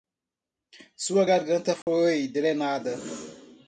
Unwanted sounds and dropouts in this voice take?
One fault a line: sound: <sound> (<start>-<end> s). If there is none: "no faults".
sound: dropout (1.8-1.9 s)